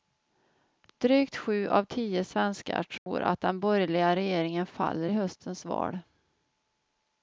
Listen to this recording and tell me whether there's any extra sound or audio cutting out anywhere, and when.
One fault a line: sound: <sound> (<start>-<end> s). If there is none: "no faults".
sound: dropout (3.0-3.1 s)